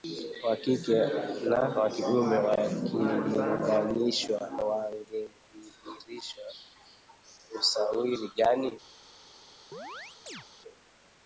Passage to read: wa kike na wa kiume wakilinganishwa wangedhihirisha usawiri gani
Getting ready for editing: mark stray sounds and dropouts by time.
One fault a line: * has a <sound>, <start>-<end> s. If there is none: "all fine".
* has a chirp, 9.7-10.5 s